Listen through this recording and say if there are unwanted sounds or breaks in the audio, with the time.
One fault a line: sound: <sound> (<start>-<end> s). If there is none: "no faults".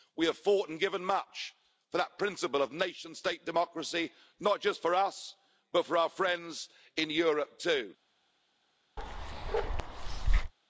sound: bark (9.0-10.5 s)